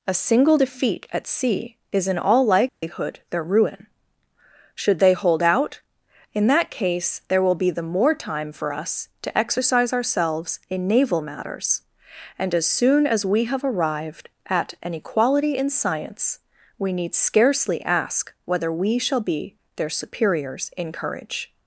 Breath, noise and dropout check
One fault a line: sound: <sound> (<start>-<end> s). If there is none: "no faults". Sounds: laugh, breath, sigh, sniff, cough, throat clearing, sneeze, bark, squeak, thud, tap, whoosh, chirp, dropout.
sound: dropout (2.7-2.8 s)